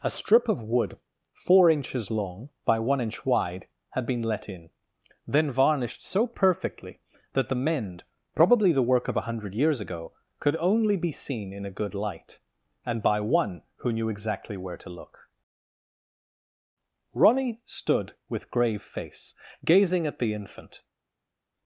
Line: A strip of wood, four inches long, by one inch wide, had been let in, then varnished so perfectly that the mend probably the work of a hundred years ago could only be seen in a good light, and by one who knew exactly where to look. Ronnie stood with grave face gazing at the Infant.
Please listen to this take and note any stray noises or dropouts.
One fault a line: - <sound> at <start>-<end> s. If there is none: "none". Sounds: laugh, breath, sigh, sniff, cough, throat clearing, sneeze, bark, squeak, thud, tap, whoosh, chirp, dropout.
none